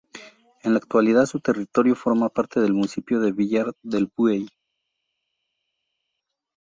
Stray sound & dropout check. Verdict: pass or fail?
pass